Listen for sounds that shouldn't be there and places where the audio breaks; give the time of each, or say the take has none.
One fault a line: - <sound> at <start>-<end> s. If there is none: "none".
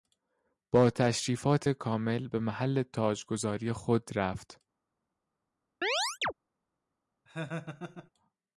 - chirp at 5.8-6.3 s
- laugh at 7.3-8.1 s